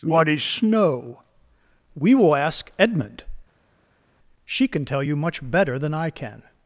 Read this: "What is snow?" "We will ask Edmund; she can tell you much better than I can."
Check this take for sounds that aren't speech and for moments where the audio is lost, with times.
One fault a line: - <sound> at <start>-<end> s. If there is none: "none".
none